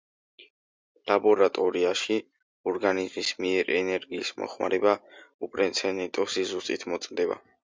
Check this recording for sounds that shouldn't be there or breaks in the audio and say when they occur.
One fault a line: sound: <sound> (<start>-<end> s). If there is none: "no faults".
no faults